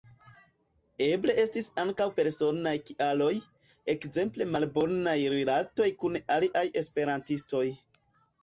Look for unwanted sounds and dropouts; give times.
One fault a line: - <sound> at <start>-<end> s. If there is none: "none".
none